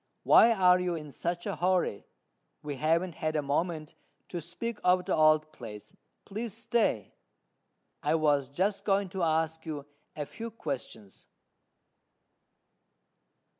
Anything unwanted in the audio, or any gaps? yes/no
no